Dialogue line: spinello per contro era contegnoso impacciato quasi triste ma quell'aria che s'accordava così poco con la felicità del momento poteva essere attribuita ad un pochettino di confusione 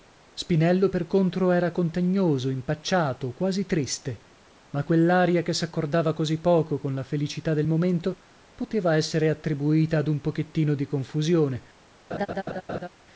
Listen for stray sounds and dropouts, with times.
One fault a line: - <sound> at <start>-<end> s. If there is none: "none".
- laugh at 12.1-12.9 s